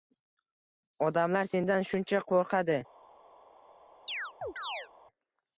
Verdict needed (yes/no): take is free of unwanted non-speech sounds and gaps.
no